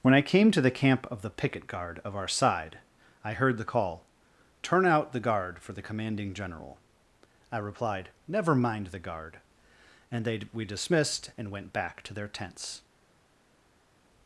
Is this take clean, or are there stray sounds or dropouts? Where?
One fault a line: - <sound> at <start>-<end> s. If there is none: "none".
none